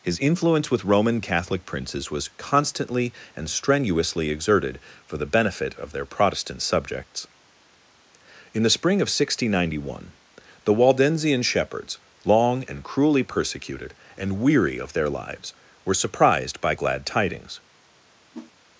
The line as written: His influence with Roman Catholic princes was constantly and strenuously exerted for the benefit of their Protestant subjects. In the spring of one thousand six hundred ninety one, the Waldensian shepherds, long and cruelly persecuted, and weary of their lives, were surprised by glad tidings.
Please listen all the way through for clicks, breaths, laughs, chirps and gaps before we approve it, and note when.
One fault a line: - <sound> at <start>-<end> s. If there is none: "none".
- whoosh at 18.3-18.5 s